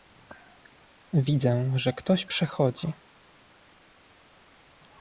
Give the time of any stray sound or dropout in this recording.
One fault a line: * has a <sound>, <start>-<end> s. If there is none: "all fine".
all fine